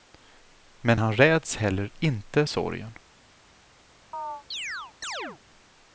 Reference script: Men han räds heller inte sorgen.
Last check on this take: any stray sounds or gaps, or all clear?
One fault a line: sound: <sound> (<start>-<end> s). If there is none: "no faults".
sound: chirp (4.1-5.4 s)